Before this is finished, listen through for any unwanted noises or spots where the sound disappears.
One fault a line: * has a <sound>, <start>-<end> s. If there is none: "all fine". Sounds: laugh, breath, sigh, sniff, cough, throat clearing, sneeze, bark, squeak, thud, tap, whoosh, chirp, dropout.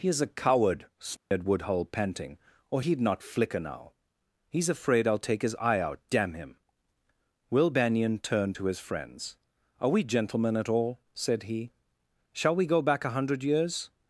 * has a dropout, 1.2-1.3 s